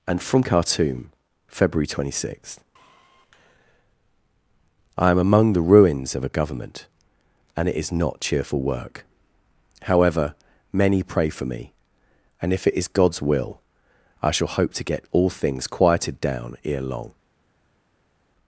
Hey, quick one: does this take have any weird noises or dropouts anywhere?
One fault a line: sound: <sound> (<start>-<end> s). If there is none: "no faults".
no faults